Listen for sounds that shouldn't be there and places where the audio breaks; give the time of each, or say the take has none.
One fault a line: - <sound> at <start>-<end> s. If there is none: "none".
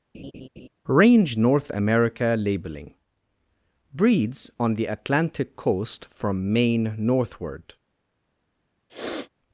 - laugh at 0.1-0.7 s
- sniff at 8.9-9.3 s